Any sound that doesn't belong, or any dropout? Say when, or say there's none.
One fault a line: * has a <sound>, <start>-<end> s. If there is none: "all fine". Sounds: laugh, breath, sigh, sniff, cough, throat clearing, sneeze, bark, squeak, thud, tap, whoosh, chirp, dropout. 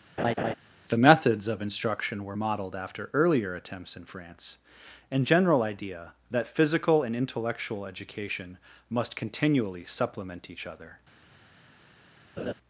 * has a laugh, 0.2-0.5 s
* has a laugh, 12.4-12.5 s